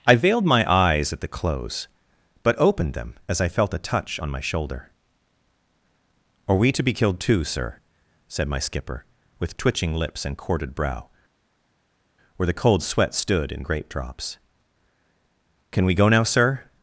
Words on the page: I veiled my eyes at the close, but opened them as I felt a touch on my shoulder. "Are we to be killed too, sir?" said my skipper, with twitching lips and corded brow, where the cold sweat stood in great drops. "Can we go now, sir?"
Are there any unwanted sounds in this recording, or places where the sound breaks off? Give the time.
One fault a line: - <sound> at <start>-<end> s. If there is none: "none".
none